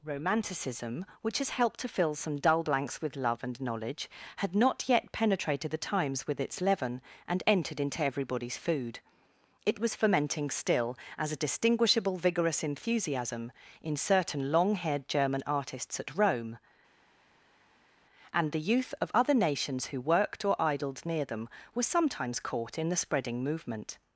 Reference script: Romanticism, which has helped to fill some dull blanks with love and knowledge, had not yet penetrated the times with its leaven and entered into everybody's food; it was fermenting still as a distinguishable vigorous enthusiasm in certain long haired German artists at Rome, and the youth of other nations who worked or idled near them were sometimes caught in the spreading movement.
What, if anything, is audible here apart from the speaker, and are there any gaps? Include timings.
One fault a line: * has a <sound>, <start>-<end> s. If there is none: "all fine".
all fine